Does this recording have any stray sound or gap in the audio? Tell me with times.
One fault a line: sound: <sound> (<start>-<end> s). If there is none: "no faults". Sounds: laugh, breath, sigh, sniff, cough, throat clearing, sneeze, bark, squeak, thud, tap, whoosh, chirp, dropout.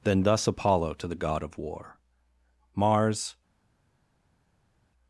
no faults